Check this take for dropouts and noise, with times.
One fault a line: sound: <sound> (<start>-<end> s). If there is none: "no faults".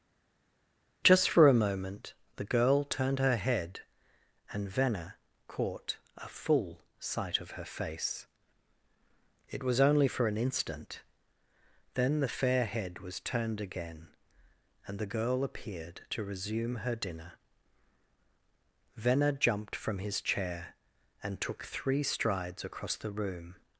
no faults